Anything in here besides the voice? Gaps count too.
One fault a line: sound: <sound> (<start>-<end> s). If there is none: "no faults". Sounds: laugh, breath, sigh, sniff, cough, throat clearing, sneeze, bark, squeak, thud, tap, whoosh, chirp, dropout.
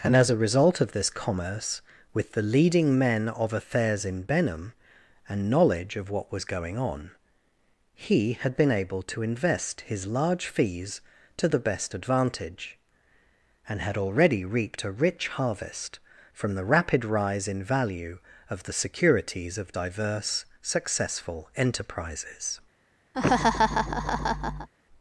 sound: laugh (23.1-24.7 s)